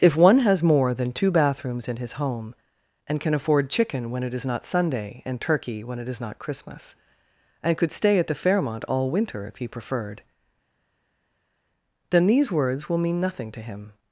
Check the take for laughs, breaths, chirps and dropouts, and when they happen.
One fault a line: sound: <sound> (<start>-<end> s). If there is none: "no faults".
no faults